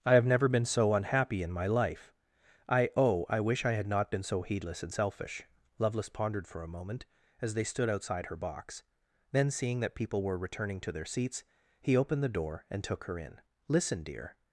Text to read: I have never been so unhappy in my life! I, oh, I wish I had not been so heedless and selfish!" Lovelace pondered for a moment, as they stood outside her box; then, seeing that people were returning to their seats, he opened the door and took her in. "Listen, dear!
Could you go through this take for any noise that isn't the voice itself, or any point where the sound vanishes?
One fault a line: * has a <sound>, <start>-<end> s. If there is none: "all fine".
all fine